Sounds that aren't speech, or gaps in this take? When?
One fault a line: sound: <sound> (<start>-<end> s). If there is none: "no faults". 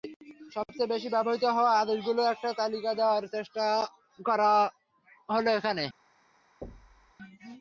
sound: thud (6.6-7.1 s)